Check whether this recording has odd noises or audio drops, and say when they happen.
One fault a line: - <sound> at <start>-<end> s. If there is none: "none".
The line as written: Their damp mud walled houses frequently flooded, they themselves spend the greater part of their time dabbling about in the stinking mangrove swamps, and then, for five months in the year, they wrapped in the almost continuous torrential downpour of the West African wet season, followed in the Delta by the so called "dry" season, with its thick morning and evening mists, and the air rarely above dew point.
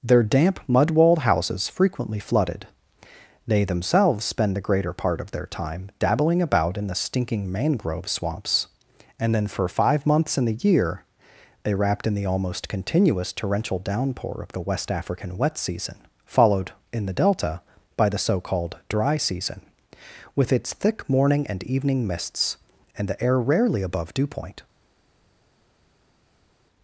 none